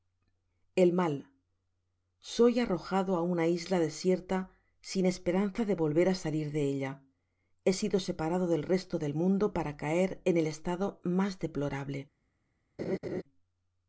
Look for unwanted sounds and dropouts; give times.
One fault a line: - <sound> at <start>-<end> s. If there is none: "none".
- laugh at 12.8-13.2 s